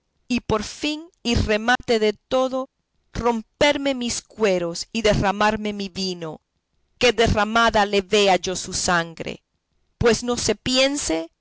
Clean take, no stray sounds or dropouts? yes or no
no